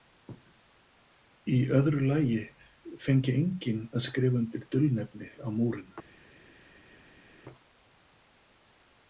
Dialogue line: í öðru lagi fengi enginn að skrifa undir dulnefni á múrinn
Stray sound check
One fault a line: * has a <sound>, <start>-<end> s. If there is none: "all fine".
all fine